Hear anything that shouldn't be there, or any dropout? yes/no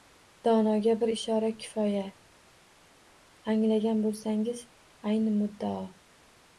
no